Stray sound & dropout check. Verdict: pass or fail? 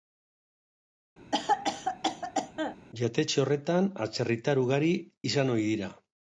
fail